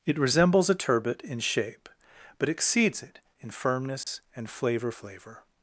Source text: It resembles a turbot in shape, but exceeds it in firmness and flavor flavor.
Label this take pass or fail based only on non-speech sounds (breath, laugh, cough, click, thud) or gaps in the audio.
fail